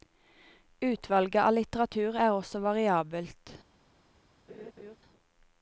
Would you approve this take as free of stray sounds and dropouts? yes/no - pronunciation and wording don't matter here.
no